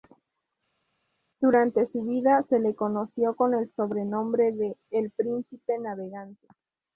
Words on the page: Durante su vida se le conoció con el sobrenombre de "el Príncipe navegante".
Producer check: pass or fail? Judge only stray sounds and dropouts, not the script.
pass